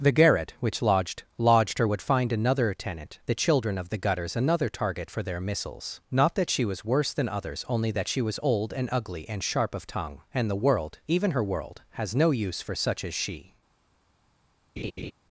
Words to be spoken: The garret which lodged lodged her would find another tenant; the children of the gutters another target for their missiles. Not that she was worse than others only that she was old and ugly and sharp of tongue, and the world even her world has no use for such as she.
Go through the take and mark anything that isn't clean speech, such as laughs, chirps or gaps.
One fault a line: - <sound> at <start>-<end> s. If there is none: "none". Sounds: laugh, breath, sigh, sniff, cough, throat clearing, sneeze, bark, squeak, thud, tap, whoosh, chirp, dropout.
- laugh at 14.8-15.1 s